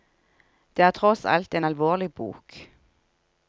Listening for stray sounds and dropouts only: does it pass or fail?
pass